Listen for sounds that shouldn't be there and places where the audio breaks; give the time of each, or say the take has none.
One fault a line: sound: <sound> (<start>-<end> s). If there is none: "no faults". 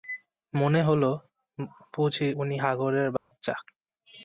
sound: dropout (3.2-3.3 s)